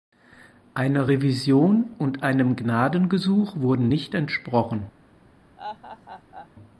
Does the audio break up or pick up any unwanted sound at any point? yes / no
yes